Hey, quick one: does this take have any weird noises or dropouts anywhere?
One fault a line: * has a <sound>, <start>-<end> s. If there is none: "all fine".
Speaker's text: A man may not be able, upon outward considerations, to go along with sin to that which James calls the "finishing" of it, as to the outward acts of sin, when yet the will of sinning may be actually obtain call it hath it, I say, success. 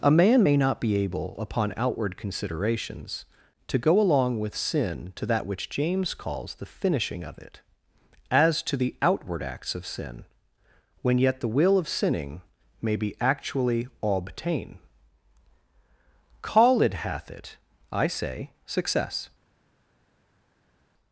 all fine